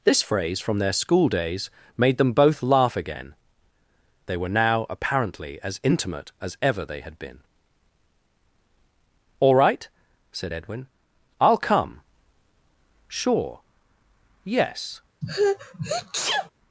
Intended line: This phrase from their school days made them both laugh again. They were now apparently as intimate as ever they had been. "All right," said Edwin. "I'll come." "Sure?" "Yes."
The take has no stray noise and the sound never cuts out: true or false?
false